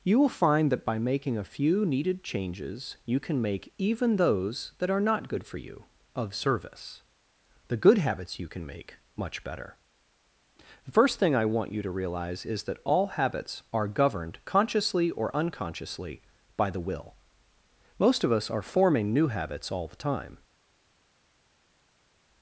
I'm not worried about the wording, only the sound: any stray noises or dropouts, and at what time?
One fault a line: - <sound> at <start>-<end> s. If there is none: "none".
none